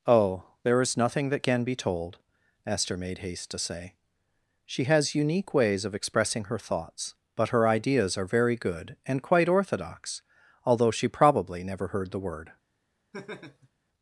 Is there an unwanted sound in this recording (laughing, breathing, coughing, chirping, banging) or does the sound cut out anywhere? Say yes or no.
yes